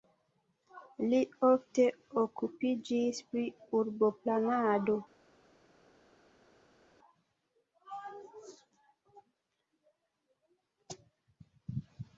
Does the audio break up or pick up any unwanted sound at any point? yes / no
no